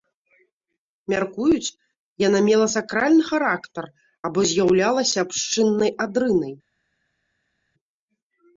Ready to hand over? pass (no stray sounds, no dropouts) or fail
pass